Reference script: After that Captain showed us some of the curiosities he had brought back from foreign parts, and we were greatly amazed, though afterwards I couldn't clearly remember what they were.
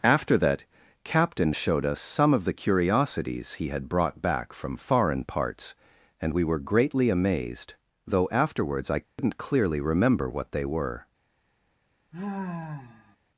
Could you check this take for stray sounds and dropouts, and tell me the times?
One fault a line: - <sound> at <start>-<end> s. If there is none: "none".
- dropout at 9.0-9.2 s
- sigh at 12.1-13.2 s